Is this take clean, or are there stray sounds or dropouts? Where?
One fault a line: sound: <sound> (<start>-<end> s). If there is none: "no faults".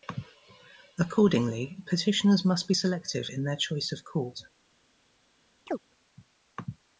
sound: chirp (5.7-5.8 s)